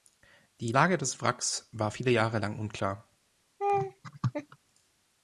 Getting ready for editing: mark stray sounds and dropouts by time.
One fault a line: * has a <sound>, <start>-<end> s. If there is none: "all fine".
* has a laugh, 3.6-4.6 s